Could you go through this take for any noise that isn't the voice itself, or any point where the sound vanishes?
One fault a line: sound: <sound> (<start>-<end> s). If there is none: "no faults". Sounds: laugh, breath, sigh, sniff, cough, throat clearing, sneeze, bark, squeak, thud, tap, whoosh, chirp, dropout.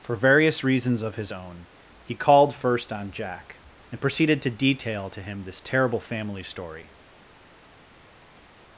no faults